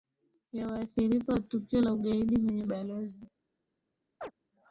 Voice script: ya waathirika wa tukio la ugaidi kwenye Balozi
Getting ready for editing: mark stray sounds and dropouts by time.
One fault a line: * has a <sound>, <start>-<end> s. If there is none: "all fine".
* has a chirp, 4.2-4.3 s